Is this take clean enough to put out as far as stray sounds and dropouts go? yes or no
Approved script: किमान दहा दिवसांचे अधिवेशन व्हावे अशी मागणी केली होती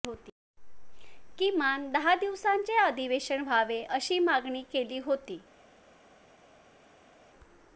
yes